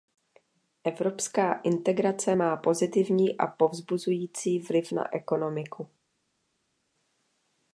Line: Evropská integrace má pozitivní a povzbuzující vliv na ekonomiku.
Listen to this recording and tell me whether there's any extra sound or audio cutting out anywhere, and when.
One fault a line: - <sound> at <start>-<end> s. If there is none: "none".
none